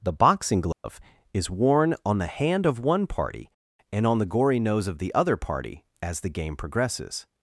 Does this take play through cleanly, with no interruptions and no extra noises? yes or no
no